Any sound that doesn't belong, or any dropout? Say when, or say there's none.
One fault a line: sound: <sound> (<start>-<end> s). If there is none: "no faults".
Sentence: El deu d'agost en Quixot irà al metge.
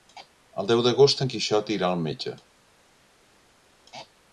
no faults